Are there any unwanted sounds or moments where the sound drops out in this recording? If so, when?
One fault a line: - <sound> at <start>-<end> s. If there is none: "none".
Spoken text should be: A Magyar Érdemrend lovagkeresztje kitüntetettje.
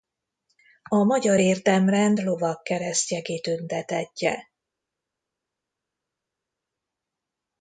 none